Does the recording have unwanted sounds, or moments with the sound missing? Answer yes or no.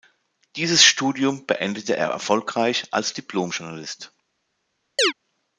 yes